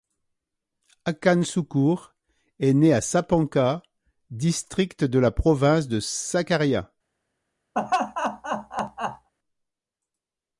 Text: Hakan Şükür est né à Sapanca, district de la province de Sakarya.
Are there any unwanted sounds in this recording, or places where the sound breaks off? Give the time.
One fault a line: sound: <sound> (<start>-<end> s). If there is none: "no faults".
sound: laugh (7.7-9.3 s)